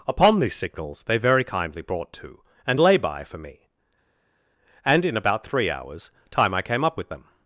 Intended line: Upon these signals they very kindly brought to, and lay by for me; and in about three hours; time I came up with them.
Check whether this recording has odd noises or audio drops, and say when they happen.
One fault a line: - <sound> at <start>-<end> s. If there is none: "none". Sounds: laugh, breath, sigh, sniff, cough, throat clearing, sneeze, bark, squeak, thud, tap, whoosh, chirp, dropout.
none